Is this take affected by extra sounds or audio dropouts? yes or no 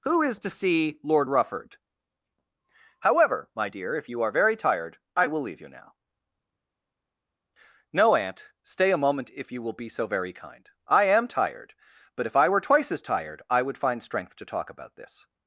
no